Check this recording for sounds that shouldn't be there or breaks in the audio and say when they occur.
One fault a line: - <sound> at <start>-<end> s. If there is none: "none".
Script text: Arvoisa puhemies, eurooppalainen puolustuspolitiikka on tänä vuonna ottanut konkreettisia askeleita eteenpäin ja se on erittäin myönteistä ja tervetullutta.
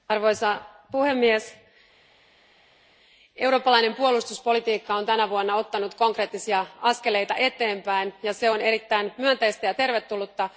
none